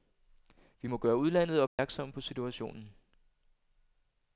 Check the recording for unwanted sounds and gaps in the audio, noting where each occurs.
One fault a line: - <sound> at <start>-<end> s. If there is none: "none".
- dropout at 1.7-1.8 s